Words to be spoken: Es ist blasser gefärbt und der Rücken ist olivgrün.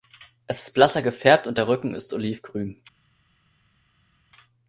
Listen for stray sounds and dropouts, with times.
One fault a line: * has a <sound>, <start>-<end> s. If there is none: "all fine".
all fine